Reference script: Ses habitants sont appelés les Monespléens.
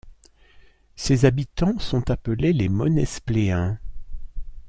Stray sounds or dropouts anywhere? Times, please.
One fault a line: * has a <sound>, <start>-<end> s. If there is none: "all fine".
all fine